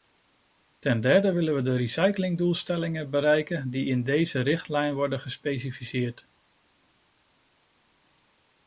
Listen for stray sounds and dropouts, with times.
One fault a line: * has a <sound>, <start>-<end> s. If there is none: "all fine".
all fine